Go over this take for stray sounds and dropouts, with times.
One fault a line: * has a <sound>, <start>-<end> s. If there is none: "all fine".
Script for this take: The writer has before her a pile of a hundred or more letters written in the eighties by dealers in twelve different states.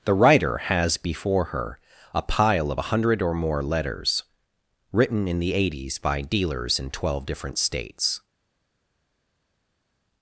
all fine